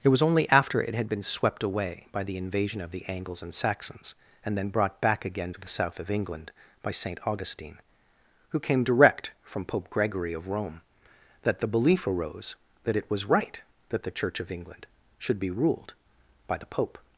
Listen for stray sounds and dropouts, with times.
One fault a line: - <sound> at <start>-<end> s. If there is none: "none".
none